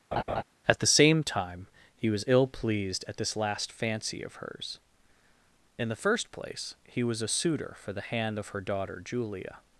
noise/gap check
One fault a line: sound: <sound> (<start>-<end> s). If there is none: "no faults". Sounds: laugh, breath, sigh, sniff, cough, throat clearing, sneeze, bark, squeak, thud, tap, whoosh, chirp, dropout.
sound: laugh (0.1-0.4 s)